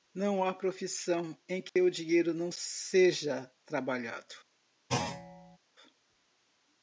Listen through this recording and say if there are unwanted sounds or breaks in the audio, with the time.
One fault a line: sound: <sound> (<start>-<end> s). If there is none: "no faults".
sound: dropout (1.7-1.8 s)
sound: thud (4.9-5.6 s)